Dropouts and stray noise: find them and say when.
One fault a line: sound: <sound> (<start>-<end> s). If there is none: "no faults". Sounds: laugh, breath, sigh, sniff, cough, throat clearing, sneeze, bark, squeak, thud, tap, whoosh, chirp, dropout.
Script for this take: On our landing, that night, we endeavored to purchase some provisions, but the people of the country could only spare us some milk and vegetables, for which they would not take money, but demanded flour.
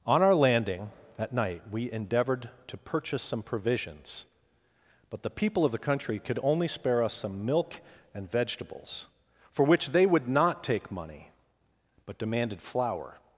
no faults